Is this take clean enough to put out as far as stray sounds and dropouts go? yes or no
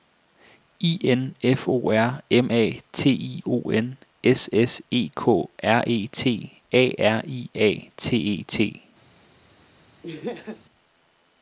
no